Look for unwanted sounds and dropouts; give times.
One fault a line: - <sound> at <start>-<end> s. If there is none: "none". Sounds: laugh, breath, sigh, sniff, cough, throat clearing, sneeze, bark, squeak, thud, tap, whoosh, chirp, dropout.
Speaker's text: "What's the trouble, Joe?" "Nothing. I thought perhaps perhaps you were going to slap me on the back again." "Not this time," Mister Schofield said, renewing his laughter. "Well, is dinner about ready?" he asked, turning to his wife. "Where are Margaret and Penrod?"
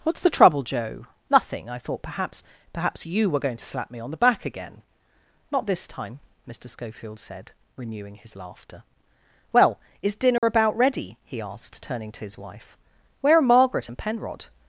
- dropout at 10.4-10.4 s